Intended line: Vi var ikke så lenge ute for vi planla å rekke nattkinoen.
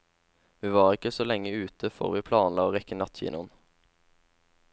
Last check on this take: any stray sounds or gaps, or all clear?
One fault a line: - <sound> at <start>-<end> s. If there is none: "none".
none